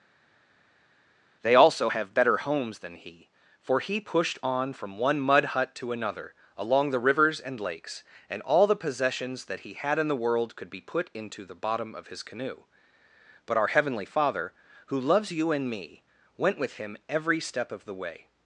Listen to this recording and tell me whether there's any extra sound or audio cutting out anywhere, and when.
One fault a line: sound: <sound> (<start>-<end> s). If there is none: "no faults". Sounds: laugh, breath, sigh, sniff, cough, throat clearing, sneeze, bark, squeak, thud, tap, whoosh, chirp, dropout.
no faults